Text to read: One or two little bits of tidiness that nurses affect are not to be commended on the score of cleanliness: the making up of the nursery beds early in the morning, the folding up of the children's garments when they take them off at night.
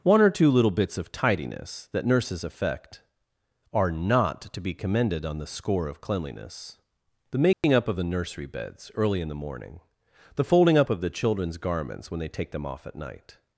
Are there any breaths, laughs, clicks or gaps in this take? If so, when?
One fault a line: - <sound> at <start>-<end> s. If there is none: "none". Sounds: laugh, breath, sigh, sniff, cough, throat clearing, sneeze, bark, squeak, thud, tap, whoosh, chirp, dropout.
- dropout at 7.5-7.6 s